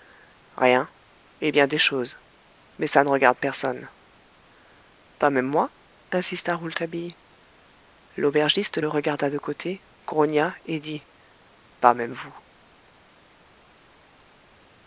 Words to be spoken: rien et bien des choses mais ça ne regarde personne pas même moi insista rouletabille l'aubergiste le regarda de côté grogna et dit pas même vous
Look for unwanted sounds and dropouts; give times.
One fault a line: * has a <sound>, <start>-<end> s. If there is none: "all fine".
all fine